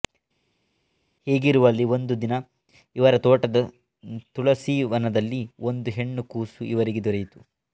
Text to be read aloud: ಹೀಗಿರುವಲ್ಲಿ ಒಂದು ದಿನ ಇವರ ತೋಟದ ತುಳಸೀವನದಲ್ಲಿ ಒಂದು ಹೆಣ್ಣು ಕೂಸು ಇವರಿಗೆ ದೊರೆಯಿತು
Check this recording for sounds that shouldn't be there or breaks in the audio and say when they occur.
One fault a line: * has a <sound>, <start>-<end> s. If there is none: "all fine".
all fine